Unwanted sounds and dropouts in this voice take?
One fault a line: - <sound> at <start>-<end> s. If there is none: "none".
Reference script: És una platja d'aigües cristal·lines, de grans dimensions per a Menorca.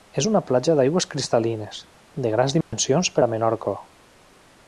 - dropout at 2.6-2.7 s